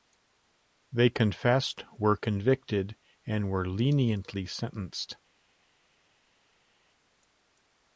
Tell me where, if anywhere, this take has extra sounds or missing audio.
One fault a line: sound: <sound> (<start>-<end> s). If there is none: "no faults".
no faults